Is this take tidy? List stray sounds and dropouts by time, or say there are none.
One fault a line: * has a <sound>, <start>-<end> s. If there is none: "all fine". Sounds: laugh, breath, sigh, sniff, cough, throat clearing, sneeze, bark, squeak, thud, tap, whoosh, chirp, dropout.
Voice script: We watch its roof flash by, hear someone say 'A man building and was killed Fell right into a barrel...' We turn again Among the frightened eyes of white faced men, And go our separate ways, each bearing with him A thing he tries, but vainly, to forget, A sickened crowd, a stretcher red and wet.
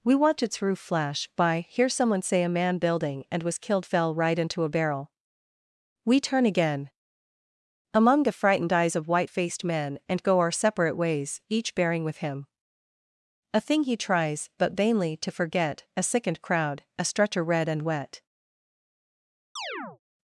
* has a chirp, 19.6-20.0 s